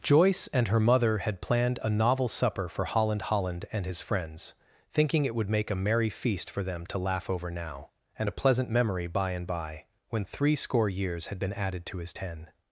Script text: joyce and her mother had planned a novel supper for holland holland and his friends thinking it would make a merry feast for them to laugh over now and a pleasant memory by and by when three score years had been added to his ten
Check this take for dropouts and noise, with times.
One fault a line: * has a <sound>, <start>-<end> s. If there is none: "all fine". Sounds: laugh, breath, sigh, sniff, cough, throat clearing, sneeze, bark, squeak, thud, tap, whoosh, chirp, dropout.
all fine